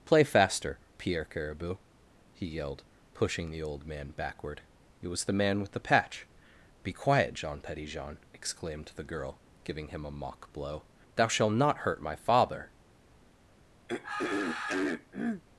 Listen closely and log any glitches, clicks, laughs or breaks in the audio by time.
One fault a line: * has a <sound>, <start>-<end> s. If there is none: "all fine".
* has a throat clearing, 13.9-15.4 s